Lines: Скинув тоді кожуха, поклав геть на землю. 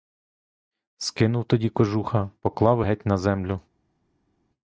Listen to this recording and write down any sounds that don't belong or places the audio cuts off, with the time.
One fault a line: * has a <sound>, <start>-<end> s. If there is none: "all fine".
all fine